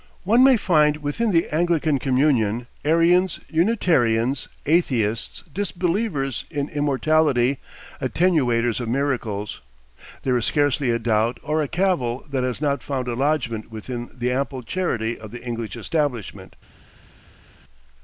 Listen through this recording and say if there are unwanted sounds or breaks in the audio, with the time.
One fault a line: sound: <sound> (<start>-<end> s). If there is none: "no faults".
no faults